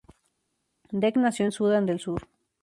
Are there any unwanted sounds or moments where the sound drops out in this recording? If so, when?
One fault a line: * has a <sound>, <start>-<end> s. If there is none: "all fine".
all fine